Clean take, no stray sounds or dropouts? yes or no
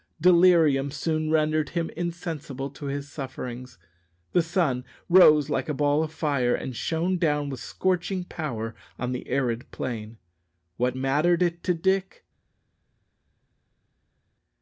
yes